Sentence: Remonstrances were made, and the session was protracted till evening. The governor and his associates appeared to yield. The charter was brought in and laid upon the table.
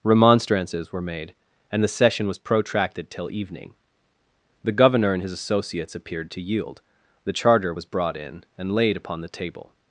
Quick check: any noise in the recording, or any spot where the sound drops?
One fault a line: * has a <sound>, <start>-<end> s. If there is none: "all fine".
all fine